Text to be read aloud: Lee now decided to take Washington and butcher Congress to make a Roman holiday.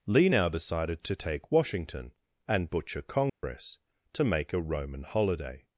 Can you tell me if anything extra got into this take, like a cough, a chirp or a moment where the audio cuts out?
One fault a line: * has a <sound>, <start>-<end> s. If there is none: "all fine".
* has a dropout, 3.3-3.4 s